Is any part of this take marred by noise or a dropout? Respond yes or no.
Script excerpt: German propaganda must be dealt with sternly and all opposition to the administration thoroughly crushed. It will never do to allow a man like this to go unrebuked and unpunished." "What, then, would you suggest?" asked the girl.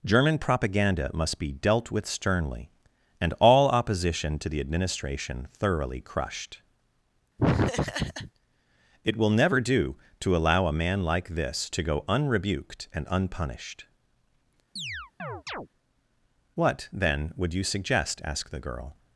yes